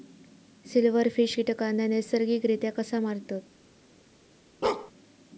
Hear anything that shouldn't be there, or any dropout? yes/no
yes